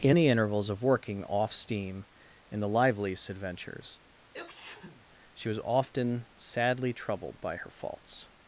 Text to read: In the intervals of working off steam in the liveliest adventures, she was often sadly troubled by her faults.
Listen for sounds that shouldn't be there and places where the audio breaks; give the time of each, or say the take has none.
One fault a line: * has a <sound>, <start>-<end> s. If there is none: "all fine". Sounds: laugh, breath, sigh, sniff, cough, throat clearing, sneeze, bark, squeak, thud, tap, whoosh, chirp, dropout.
* has a sneeze, 4.3-5.1 s